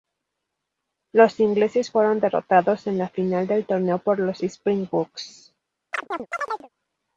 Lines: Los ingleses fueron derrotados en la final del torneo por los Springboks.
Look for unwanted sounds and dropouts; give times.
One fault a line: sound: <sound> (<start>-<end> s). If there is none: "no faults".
sound: chirp (5.9-6.7 s)